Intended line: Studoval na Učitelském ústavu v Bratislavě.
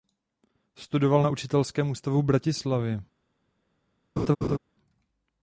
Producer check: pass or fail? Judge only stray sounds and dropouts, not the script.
fail